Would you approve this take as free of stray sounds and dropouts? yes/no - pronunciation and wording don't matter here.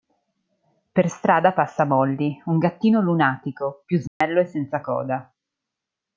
no